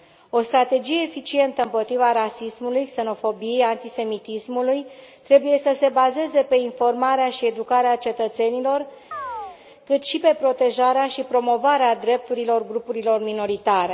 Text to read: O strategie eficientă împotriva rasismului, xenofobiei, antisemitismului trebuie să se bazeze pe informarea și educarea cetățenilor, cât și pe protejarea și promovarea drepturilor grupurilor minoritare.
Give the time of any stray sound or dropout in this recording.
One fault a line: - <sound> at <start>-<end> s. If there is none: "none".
- chirp at 9.1-9.6 s